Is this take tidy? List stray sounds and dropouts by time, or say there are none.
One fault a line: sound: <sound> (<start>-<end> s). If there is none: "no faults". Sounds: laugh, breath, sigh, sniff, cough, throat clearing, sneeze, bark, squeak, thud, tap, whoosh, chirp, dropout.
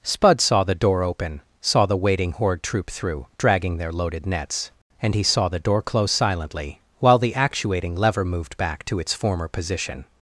no faults